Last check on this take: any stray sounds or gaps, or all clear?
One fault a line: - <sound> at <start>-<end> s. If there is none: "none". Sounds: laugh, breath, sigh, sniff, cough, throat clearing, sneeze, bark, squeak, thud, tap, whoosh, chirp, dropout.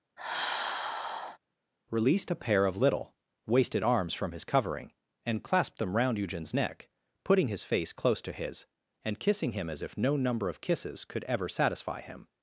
- sigh at 0.2-1.4 s